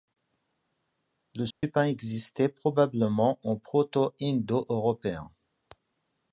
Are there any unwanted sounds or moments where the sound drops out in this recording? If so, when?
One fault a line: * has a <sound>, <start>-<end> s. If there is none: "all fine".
* has a dropout, 1.5-1.6 s